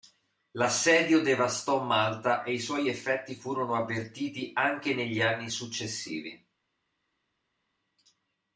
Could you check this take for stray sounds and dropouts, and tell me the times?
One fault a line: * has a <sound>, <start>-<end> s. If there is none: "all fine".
all fine